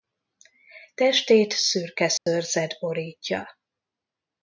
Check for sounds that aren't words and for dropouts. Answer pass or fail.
fail